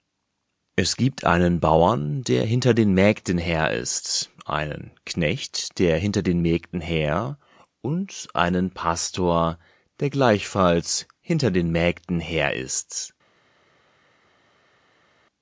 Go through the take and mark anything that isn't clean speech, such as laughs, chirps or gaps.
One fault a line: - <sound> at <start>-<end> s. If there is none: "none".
none